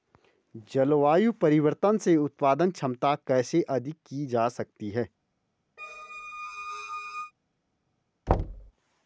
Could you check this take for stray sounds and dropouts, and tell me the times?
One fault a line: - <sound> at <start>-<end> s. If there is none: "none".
- squeak at 5.8-7.3 s
- thud at 8.3-8.7 s